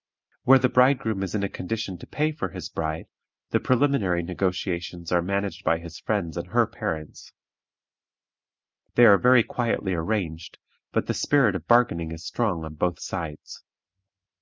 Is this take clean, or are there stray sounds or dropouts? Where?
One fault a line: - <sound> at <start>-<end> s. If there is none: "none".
none